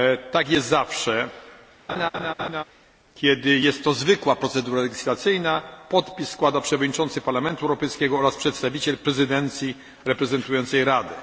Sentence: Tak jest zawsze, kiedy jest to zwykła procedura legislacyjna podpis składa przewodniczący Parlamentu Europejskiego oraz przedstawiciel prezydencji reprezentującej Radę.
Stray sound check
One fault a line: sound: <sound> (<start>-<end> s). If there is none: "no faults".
sound: laugh (1.9-2.6 s)